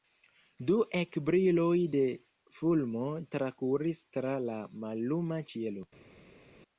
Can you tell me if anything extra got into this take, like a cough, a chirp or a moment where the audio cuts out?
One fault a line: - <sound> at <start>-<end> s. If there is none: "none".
none